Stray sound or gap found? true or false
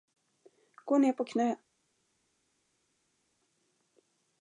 false